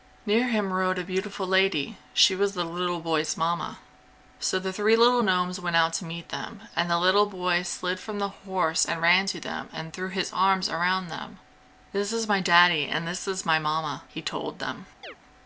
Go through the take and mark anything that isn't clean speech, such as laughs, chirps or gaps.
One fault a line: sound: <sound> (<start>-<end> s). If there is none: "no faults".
sound: chirp (15.0-15.2 s)